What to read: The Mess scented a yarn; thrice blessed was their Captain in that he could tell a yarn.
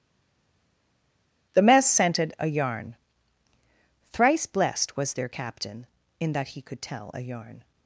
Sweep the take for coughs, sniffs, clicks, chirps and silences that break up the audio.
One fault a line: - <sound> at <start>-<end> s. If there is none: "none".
none